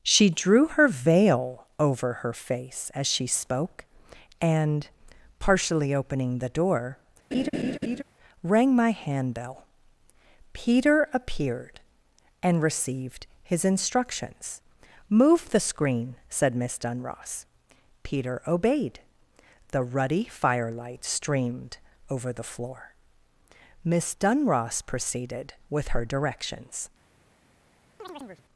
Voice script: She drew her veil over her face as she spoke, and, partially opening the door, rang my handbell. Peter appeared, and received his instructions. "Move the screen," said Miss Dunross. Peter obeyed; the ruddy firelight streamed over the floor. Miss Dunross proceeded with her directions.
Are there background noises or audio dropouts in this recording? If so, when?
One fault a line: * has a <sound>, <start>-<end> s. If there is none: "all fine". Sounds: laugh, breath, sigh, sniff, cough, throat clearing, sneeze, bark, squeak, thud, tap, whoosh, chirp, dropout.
* has a laugh, 7.3-8.0 s
* has a chirp, 28.0-28.4 s